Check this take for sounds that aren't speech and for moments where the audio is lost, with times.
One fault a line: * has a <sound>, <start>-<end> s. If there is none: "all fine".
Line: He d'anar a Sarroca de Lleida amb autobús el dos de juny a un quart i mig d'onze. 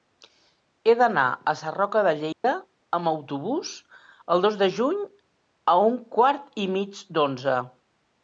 * has a dropout, 2.3-2.4 s